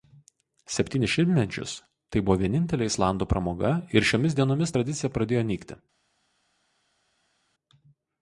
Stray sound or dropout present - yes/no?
no